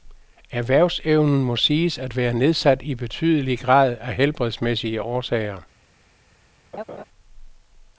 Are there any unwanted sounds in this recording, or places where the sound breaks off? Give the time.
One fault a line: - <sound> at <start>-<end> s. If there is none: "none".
- laugh at 6.7-7.0 s